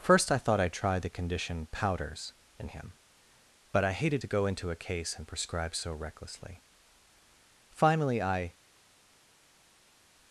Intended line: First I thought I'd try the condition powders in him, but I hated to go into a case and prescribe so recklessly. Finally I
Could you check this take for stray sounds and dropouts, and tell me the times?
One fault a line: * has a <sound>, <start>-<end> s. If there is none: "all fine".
all fine